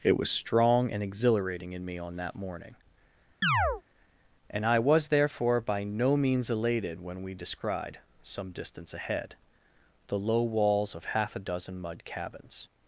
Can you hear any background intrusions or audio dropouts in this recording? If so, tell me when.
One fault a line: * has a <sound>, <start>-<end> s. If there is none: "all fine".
* has a chirp, 3.4-3.8 s